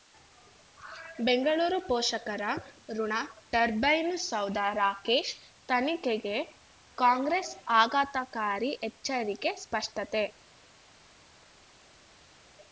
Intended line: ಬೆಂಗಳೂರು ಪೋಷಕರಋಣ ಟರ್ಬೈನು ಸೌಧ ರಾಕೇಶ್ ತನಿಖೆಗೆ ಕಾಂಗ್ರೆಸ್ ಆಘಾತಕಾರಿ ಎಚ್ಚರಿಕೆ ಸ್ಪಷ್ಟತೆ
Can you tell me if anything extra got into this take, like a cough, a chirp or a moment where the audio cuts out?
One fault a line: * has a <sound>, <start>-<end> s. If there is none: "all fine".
all fine